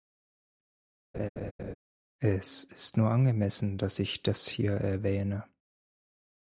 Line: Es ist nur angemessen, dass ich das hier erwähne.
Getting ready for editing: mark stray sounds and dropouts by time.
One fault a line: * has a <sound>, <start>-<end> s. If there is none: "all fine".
* has a laugh, 1.1-1.7 s